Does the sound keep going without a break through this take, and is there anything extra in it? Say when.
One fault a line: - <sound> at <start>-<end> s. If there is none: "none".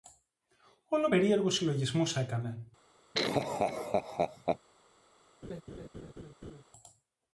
- laugh at 3.1-4.6 s
- laugh at 5.4-6.6 s